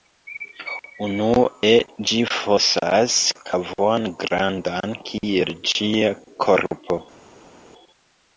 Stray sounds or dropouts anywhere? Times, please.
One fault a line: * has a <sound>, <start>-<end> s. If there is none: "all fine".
all fine